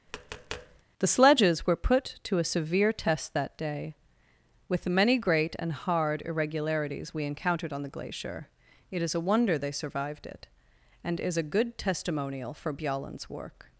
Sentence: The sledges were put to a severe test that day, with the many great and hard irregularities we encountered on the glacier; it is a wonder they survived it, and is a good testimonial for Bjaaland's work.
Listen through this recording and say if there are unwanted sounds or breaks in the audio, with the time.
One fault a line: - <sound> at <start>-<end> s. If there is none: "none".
- tap at 0.1-0.8 s